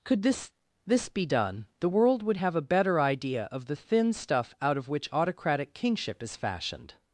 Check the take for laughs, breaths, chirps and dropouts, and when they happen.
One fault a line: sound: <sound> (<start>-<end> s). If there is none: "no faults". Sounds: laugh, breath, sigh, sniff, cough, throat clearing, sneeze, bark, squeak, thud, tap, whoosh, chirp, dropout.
no faults